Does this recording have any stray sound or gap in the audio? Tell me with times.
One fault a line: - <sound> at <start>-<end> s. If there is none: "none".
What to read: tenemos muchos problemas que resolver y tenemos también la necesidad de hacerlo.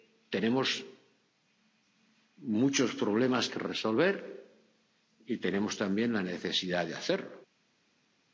none